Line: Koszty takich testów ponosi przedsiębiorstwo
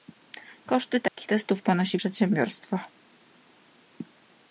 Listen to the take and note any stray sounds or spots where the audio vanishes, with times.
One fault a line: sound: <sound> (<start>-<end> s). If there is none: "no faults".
sound: dropout (1.1-1.2 s)